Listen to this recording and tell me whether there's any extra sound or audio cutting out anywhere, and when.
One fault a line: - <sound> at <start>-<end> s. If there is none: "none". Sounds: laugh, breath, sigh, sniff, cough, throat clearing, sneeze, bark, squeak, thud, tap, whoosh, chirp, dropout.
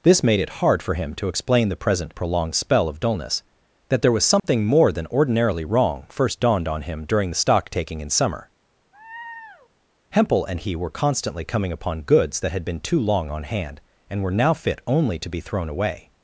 - dropout at 4.4-4.4 s
- laugh at 8.9-9.7 s